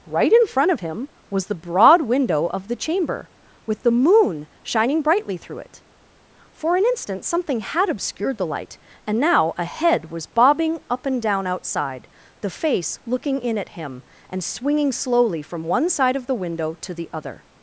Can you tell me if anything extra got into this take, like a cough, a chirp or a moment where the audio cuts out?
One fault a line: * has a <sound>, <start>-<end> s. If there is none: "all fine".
all fine